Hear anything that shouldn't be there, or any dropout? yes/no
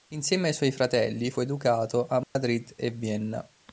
yes